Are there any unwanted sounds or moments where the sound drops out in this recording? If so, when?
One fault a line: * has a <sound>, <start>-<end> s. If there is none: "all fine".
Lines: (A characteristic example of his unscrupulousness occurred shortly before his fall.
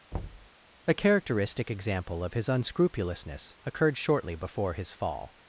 * has a thud, 0.1-0.5 s